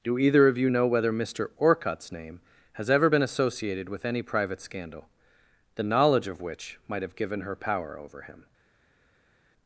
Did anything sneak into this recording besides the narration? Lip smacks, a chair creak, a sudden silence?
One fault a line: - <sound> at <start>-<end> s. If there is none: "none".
none